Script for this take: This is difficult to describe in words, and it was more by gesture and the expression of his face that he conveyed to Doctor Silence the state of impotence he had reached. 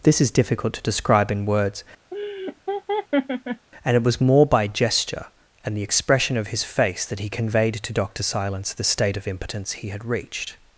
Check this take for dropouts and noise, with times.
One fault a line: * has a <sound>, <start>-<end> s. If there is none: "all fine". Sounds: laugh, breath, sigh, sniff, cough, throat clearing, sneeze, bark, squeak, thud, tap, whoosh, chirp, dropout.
* has a laugh, 2.1-3.7 s